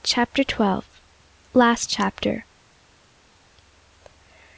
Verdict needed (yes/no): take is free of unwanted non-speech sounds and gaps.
yes